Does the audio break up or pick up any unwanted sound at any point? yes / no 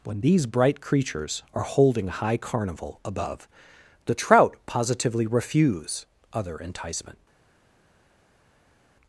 no